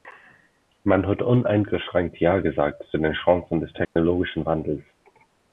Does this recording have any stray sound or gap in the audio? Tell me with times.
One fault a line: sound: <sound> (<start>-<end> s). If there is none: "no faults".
sound: dropout (3.8-4.0 s)